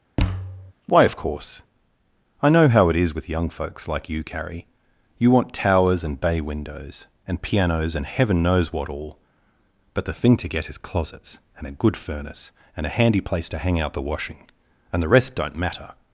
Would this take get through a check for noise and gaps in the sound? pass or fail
fail